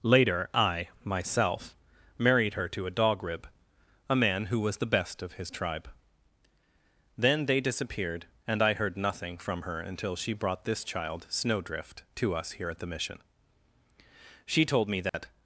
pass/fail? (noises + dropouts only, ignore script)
fail